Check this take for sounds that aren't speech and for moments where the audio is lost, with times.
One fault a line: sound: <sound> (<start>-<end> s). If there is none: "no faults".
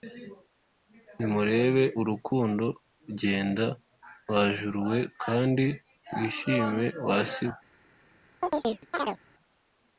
sound: chirp (8.4-9.2 s)